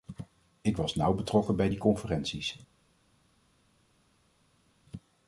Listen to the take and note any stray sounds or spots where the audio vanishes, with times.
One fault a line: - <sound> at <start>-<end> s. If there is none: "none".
none